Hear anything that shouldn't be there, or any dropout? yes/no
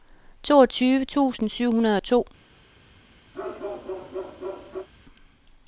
yes